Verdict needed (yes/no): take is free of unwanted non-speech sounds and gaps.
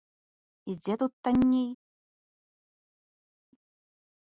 yes